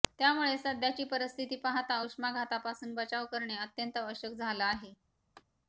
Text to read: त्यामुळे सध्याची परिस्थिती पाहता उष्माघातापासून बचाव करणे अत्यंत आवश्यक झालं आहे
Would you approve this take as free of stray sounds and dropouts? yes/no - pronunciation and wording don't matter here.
no